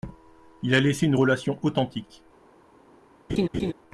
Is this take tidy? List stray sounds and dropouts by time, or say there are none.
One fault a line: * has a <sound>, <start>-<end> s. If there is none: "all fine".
* has a laugh, 3.3-3.7 s